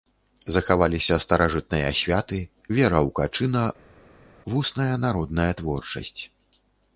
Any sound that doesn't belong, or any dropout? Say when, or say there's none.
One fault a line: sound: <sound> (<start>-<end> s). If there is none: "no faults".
no faults